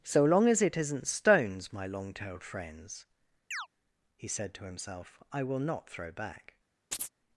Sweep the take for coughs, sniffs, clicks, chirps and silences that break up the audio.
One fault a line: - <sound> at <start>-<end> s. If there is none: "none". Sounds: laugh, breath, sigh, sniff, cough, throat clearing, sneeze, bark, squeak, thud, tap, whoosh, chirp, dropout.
- chirp at 3.5-3.7 s
- chirp at 6.9-7.1 s